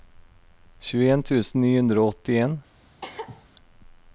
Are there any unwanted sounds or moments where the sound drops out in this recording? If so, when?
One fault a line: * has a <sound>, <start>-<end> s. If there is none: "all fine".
* has a cough, 3.0-3.4 s